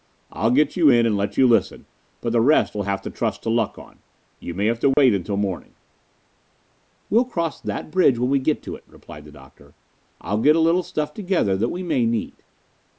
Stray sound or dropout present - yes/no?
yes